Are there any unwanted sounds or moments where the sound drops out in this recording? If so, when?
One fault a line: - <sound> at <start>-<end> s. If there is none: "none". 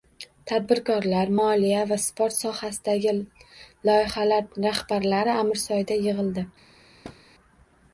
- thud at 7.0-7.2 s